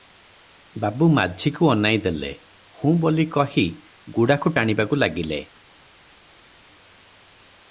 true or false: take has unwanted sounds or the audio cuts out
false